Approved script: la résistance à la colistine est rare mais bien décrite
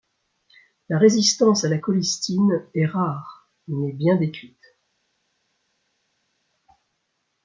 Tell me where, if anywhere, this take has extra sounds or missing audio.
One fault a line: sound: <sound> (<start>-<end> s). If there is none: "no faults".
no faults